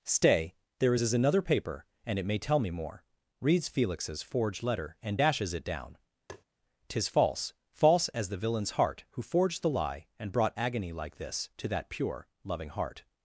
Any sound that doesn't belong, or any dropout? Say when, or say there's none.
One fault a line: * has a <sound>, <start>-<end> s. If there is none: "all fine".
* has a tap, 6.3-6.4 s